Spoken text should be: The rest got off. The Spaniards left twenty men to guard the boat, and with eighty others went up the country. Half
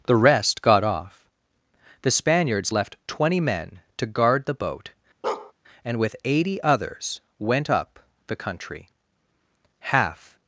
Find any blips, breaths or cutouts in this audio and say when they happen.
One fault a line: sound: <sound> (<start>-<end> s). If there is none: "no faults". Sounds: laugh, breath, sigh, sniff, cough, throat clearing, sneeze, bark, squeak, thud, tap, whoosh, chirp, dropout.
sound: bark (5.2-5.5 s)